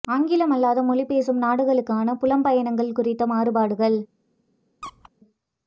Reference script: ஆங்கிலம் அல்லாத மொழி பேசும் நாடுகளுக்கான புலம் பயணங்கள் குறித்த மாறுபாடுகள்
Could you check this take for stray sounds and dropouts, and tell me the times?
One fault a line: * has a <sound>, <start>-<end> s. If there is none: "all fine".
* has a squeak, 4.8-5.1 s